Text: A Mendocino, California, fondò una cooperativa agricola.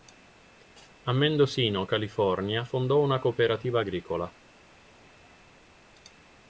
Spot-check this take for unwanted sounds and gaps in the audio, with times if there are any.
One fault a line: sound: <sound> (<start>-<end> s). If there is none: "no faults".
no faults